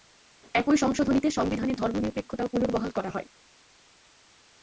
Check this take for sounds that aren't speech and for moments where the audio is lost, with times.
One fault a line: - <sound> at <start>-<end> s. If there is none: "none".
none